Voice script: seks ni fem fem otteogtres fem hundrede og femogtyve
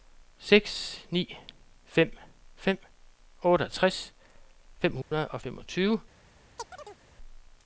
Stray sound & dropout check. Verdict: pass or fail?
fail